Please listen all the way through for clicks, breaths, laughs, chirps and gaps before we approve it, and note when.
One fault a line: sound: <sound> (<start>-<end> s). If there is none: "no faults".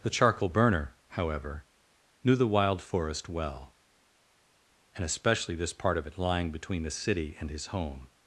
no faults